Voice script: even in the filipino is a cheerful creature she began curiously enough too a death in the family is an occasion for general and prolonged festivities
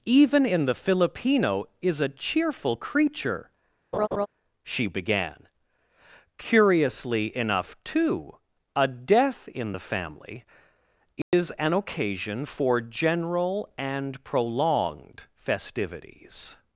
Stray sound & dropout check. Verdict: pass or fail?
fail